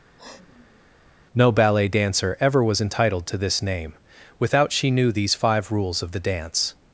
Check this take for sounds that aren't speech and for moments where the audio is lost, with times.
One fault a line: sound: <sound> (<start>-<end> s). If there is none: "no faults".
sound: sniff (0.2-0.8 s)